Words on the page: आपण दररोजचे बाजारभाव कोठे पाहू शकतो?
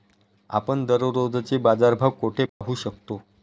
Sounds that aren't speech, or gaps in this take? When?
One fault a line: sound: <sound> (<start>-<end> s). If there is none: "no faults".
sound: dropout (2.5-2.6 s)